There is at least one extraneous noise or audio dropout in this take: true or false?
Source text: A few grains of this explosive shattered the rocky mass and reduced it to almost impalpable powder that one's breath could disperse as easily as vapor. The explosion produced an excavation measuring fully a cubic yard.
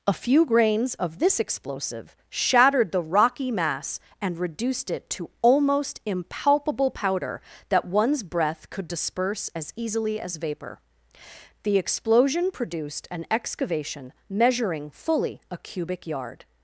false